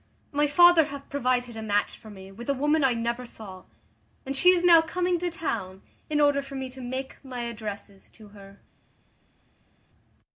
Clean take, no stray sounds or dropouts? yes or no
yes